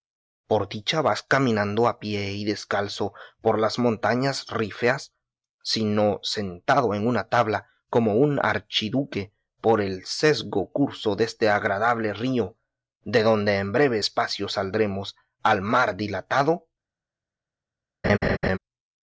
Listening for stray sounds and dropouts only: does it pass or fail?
fail